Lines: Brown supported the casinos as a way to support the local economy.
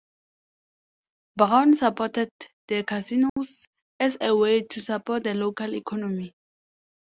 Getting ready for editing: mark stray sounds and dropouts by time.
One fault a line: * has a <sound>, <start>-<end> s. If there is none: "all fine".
* has a dropout, 3.3-3.4 s